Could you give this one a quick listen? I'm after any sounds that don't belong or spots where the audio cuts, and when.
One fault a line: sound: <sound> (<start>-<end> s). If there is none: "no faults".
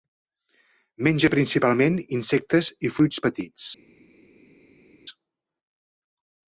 no faults